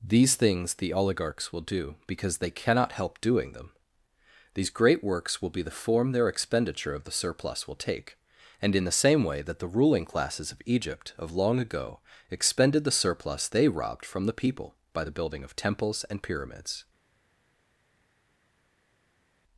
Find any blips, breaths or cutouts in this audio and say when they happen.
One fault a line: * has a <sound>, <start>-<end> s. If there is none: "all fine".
all fine